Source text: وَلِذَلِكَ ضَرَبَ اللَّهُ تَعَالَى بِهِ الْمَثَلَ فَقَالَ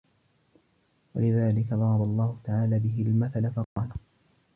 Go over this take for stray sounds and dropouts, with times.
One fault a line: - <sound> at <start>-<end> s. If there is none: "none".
- dropout at 3.6-3.8 s